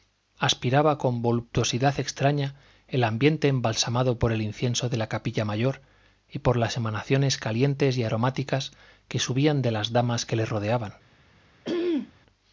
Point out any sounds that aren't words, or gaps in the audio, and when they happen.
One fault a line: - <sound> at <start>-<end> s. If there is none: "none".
- throat clearing at 11.6-12.1 s